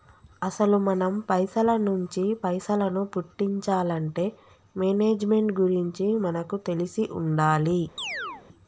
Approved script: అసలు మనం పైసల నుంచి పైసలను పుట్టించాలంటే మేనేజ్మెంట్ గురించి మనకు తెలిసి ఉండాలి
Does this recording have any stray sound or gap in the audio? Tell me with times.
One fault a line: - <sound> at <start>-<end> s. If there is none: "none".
- chirp at 8.0-8.4 s